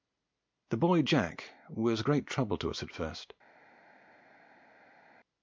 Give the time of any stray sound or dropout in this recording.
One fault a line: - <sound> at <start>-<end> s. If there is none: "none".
none